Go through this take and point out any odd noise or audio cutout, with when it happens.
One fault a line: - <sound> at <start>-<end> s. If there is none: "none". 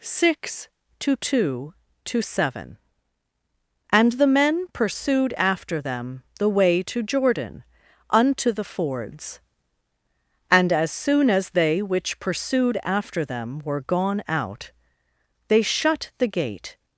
none